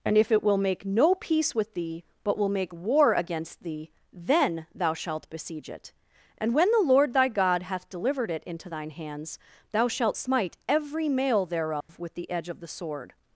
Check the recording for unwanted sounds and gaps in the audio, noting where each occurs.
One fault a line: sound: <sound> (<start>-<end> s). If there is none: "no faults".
sound: dropout (11.8-11.9 s)